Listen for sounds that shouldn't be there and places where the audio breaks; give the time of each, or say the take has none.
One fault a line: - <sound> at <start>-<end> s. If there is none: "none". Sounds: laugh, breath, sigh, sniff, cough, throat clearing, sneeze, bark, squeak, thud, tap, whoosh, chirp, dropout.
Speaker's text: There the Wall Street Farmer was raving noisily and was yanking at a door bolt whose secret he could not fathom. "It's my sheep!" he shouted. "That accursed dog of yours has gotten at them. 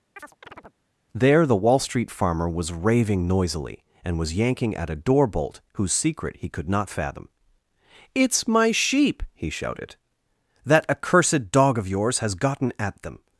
- chirp at 0.2-0.8 s